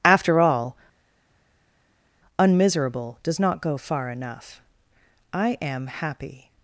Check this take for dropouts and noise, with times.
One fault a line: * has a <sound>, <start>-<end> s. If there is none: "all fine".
all fine